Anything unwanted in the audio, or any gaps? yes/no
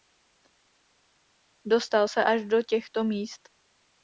no